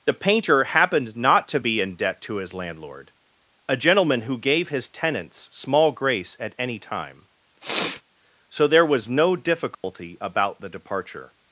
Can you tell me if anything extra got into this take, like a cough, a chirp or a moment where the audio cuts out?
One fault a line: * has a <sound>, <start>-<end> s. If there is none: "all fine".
* has a sniff, 7.6-8.0 s
* has a dropout, 9.7-9.8 s